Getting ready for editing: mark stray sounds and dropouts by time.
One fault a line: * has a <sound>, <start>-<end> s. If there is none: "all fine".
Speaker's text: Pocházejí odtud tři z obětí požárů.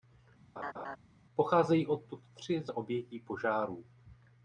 * has a laugh, 0.6-1.0 s